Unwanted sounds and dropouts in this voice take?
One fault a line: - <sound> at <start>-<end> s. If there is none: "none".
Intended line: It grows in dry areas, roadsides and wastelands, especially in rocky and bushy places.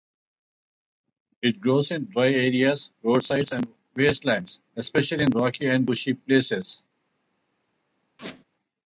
- squeak at 8.2-8.4 s